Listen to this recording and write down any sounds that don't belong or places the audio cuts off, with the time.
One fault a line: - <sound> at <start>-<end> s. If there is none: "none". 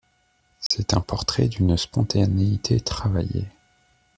- dropout at 0.7-0.7 s